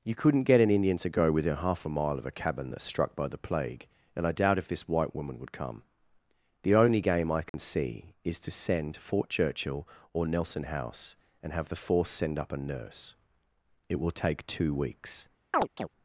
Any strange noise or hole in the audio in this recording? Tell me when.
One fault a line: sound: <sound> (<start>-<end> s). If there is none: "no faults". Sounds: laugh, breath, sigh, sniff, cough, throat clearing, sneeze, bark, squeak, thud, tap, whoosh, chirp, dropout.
sound: dropout (7.5-7.5 s)
sound: chirp (15.5-15.9 s)